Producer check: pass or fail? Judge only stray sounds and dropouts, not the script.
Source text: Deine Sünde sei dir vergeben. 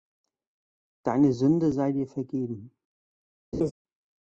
fail